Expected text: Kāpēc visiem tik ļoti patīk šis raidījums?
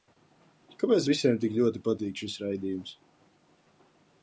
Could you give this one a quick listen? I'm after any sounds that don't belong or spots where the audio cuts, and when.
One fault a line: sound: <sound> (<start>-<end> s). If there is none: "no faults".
no faults